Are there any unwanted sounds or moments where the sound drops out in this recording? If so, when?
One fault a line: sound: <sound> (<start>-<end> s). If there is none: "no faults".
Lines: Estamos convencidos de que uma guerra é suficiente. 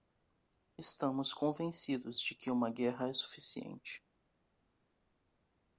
no faults